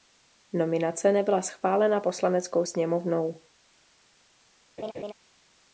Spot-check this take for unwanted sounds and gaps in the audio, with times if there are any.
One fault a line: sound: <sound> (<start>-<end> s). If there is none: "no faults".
sound: laugh (4.8-5.1 s)